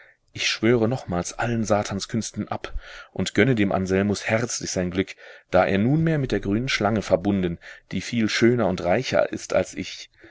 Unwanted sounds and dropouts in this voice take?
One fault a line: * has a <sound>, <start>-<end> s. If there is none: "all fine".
all fine